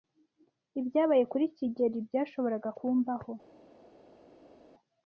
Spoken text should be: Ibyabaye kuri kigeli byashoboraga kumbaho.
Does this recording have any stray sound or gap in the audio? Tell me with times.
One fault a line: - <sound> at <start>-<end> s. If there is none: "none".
none